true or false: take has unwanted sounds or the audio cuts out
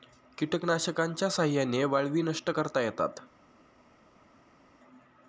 false